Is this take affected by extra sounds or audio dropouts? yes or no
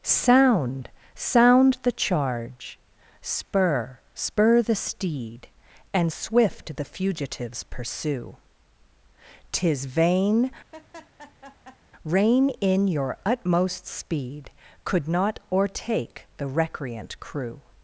yes